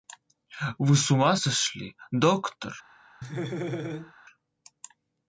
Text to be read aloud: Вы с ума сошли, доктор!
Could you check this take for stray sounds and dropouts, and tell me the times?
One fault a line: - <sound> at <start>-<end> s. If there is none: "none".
- laugh at 3.2-4.1 s